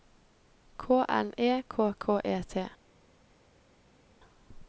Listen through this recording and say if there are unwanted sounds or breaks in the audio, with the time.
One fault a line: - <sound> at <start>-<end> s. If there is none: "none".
none